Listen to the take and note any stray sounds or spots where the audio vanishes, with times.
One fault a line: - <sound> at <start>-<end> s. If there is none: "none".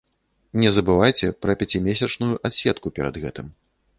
none